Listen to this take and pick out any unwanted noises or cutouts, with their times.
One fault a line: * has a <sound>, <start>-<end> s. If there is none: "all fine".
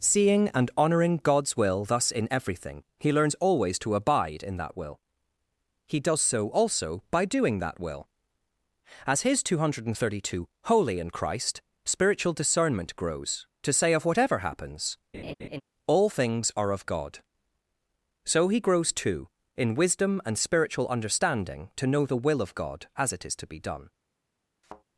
* has a laugh, 15.1-15.6 s
* has a thud, 24.6-24.8 s